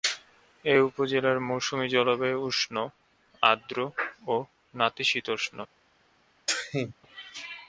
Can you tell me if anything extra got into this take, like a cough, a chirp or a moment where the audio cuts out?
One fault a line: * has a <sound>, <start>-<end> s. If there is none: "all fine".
* has a sneeze, 6.5-6.9 s